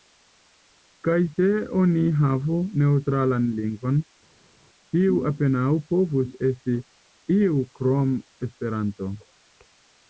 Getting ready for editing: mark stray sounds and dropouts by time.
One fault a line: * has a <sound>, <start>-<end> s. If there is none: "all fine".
all fine